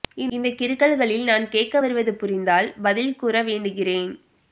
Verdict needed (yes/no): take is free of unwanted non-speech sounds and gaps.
yes